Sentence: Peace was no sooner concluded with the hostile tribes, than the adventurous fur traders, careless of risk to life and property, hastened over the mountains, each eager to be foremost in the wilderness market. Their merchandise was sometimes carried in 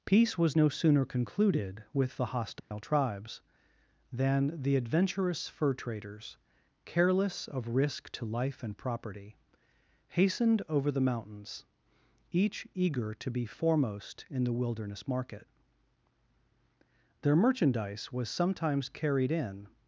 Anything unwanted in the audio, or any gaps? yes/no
yes